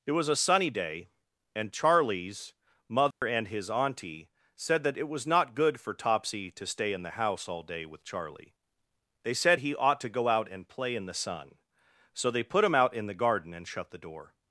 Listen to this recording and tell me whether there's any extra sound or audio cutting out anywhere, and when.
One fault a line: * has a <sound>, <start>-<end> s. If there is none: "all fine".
* has a dropout, 3.1-3.2 s